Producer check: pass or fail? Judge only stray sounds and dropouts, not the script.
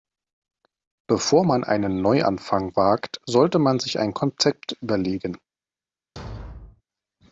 fail